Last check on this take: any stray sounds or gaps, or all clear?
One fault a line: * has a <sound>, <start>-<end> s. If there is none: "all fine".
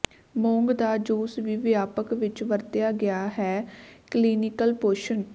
all fine